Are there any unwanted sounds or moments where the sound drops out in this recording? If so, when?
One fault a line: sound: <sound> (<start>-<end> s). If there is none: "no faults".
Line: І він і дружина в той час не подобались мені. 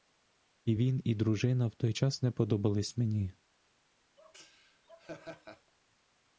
sound: laugh (4.2-5.7 s)